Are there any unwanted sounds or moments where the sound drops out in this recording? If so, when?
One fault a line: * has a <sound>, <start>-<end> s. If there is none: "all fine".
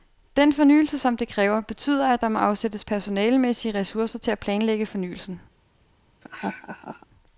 * has a laugh, 6.2-7.1 s